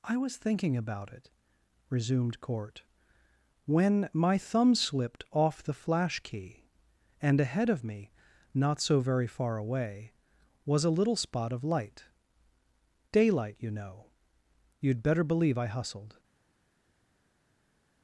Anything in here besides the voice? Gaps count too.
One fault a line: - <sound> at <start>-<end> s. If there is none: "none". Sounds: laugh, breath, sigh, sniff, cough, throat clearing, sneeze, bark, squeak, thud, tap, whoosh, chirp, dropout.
none